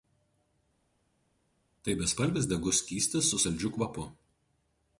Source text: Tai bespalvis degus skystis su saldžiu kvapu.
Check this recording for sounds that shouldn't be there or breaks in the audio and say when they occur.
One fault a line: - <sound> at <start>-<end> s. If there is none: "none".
none